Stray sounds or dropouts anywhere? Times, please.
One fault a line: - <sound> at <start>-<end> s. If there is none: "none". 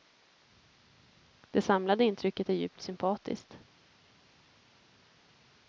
none